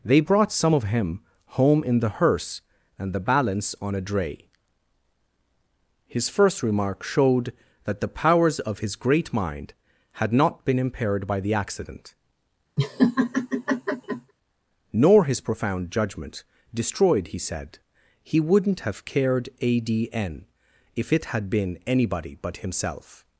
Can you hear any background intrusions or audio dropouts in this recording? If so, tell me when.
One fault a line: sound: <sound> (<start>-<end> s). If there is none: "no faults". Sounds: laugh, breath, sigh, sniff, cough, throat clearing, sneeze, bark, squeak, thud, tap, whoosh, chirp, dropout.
sound: laugh (12.8-14.3 s)